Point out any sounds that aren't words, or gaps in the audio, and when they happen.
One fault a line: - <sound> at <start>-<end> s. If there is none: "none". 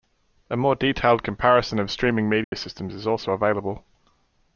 - dropout at 2.4-2.5 s